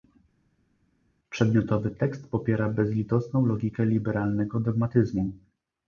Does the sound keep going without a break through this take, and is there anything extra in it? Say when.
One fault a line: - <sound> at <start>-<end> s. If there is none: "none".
none